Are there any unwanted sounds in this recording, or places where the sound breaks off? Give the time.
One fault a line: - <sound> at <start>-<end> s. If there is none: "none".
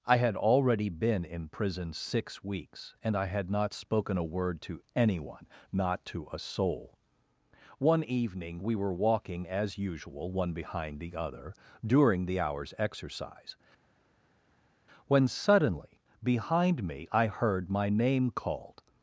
none